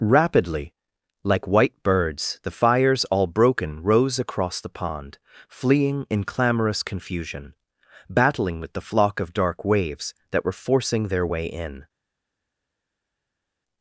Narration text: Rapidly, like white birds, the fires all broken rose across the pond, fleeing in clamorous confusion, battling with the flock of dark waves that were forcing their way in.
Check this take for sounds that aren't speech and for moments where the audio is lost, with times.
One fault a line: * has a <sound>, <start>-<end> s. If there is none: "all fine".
all fine